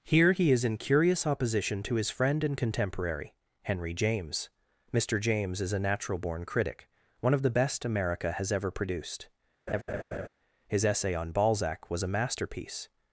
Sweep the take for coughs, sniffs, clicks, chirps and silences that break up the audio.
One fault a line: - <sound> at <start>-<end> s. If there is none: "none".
- laugh at 9.7-10.3 s